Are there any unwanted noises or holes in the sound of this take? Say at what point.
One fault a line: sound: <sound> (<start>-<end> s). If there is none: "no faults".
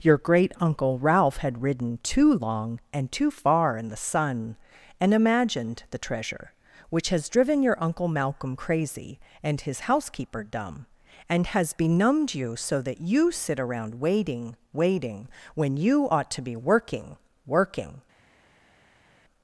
no faults